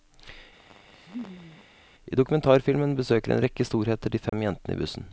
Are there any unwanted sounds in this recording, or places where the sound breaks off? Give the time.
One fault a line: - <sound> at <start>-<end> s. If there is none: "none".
- laugh at 0.6-1.7 s
- dropout at 4.3-4.3 s